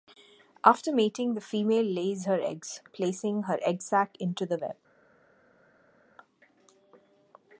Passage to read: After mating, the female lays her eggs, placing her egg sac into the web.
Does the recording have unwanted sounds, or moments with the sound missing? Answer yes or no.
no